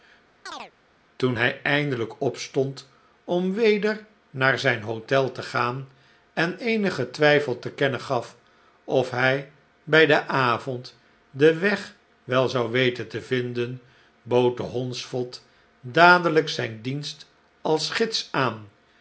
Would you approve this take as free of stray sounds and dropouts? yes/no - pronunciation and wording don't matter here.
no